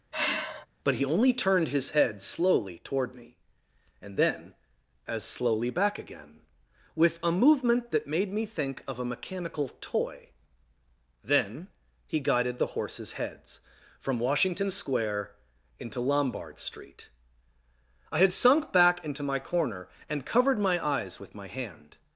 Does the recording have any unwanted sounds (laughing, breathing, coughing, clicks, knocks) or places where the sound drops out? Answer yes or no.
yes